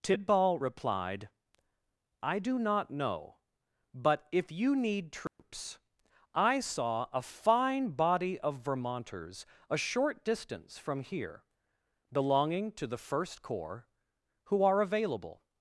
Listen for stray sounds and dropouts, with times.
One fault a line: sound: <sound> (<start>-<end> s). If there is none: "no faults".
sound: dropout (5.3-5.4 s)